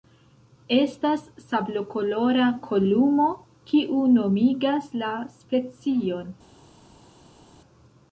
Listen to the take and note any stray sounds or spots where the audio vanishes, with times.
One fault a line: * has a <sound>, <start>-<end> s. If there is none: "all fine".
all fine